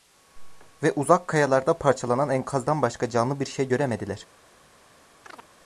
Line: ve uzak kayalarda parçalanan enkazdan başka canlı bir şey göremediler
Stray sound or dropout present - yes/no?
yes